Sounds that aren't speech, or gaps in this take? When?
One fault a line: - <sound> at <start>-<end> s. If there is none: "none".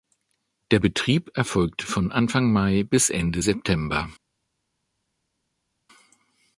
none